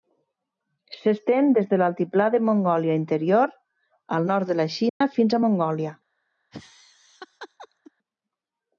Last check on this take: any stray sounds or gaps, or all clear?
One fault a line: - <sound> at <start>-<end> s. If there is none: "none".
- dropout at 4.9-5.0 s
- laugh at 6.5-7.9 s